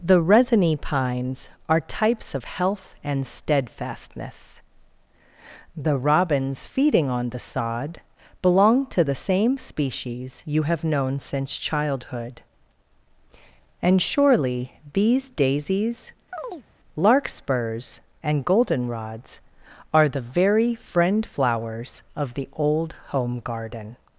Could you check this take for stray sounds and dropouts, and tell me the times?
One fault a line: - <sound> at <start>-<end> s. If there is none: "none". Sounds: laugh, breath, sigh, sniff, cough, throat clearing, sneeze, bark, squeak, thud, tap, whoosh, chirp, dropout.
- chirp at 16.3-16.7 s